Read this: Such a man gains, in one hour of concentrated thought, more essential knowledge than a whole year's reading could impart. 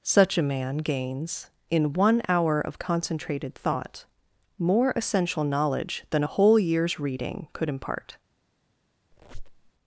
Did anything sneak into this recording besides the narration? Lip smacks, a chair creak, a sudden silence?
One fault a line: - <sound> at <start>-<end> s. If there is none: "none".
- squeak at 9.1-9.7 s